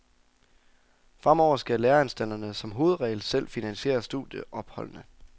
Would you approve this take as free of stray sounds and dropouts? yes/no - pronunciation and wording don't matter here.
yes